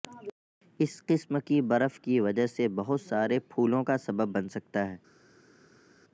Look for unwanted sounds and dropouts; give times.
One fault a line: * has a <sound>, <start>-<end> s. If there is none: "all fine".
all fine